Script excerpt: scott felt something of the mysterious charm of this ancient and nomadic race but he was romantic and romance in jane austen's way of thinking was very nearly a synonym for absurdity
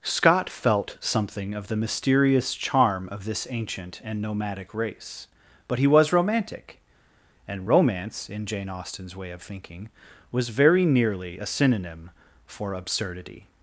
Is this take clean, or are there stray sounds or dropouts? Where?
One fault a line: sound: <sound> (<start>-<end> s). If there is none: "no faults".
no faults